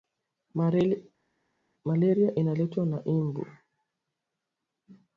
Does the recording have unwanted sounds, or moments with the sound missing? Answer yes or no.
no